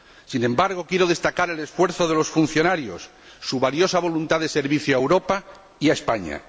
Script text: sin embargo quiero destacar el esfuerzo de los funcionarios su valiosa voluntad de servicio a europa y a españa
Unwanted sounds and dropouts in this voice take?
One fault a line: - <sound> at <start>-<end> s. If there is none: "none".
none